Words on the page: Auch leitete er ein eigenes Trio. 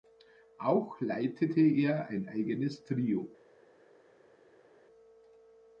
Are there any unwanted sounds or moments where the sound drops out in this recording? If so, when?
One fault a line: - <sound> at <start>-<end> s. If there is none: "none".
none